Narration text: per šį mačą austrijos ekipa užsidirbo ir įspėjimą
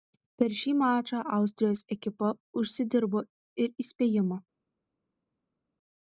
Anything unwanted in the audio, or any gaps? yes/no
no